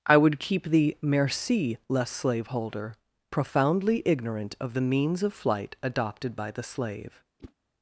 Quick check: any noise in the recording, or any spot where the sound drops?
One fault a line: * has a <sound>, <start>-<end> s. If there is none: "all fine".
* has a whoosh, 7.4-7.5 s